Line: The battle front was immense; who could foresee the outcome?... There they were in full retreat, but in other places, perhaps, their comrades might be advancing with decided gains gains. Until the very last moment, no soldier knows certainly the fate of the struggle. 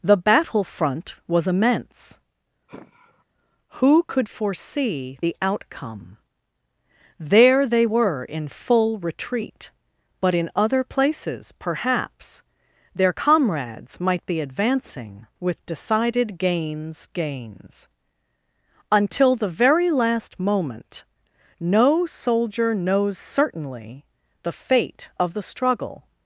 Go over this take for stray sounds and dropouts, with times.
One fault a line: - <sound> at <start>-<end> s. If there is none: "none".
- sigh at 2.7-3.2 s